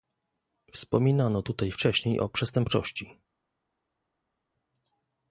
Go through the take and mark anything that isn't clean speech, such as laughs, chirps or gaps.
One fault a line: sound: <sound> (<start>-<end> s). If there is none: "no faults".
no faults